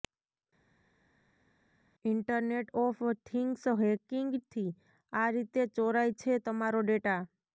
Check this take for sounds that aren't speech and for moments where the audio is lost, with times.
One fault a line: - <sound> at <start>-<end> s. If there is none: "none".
none